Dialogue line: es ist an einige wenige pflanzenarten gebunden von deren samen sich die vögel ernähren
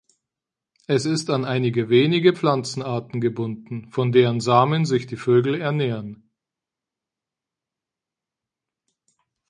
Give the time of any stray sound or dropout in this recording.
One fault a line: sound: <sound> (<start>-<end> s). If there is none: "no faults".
no faults